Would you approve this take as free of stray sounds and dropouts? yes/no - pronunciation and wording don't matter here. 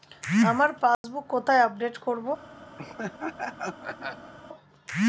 no